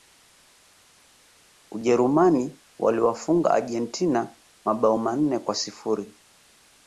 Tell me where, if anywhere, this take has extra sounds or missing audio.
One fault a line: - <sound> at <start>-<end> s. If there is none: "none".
none